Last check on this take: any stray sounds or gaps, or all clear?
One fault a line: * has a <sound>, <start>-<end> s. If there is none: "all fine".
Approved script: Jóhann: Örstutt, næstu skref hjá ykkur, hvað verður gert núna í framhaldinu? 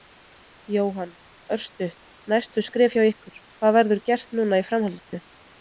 * has a dropout, 5.0-5.1 s